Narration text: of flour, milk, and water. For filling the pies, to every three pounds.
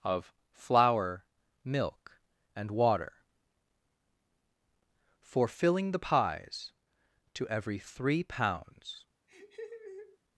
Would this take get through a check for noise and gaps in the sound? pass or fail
fail